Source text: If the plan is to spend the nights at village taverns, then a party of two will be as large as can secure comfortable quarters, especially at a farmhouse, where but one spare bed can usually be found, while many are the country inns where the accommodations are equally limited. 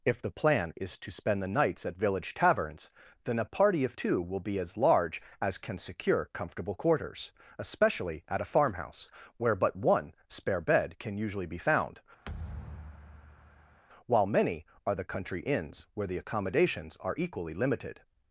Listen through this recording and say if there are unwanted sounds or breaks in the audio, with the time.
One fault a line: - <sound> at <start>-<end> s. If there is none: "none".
- thud at 12.3-13.8 s